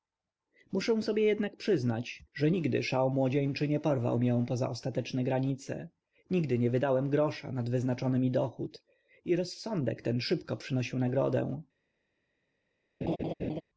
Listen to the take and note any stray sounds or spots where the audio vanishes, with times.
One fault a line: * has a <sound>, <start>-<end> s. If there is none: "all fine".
* has a laugh, 13.0-13.6 s